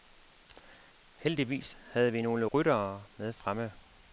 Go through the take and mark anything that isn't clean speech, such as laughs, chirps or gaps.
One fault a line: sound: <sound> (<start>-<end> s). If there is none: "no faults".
no faults